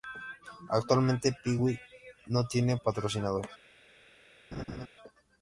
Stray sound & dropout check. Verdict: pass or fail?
fail